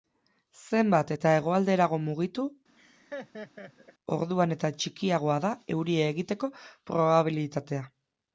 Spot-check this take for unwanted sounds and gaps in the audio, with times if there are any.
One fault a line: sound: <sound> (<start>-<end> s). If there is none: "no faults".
sound: laugh (2.8-3.9 s)